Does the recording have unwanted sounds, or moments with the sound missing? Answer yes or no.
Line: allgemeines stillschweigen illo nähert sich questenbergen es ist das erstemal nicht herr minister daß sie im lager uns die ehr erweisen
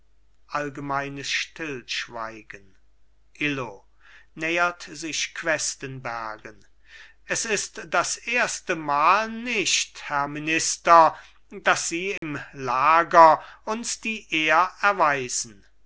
yes